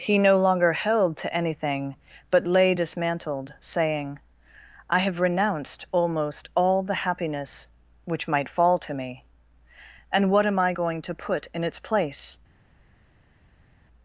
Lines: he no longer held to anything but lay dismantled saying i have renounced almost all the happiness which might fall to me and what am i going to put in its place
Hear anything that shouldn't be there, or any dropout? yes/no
no